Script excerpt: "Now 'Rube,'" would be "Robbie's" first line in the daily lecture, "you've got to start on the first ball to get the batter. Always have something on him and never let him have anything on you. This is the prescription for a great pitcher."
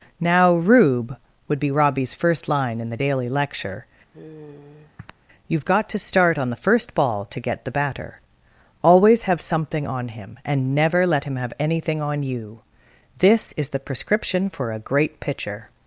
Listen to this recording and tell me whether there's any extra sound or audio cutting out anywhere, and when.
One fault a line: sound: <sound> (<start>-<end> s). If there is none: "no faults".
sound: sigh (4.1-5.1 s)